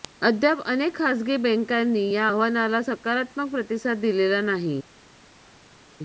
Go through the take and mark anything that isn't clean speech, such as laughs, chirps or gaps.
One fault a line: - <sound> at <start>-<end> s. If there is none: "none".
none